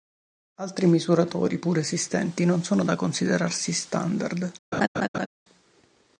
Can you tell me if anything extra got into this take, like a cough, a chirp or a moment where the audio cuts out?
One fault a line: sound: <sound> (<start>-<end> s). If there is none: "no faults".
sound: laugh (4.7-5.3 s)